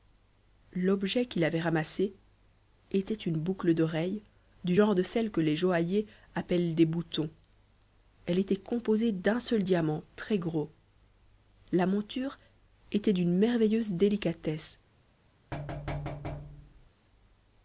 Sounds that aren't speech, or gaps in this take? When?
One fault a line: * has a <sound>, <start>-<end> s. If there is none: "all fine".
* has a thud, 15.5-16.9 s